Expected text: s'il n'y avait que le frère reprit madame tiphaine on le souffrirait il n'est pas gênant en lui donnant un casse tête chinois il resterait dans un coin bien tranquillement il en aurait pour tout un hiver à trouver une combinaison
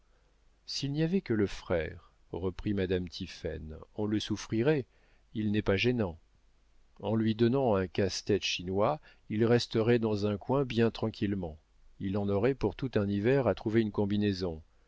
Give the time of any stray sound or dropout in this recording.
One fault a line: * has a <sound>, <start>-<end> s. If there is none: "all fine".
all fine